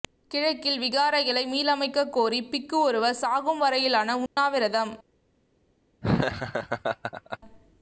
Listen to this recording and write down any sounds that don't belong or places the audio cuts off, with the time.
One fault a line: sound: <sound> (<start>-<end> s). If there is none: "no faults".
sound: dropout (4.3-4.4 s)
sound: laugh (6.0-7.4 s)